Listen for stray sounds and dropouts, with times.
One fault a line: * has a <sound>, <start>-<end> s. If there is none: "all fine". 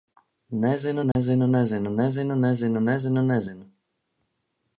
* has a dropout, 1.1-1.2 s